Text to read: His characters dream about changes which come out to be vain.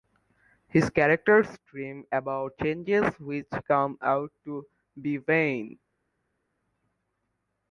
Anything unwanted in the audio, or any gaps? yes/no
no